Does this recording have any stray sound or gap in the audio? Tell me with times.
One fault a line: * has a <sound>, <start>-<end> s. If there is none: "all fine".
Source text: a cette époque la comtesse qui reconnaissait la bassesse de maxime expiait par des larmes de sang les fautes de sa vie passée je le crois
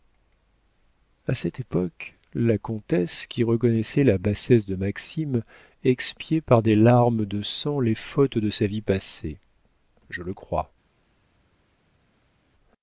all fine